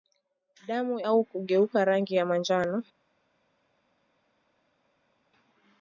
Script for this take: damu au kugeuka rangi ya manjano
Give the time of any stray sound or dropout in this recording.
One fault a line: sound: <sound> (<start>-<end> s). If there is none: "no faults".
no faults